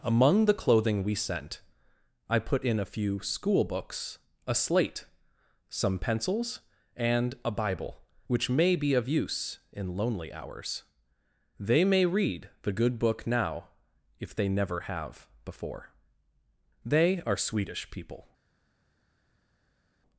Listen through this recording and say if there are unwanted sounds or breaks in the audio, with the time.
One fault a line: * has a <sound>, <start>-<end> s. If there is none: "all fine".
all fine